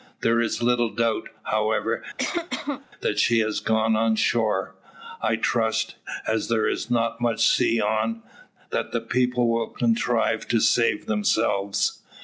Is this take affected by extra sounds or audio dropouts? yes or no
yes